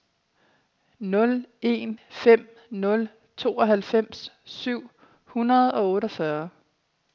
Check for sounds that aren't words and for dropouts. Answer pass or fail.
pass